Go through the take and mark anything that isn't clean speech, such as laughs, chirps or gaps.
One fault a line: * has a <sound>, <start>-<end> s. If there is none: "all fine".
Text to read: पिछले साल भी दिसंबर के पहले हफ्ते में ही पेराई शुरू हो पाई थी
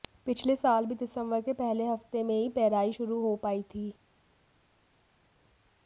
all fine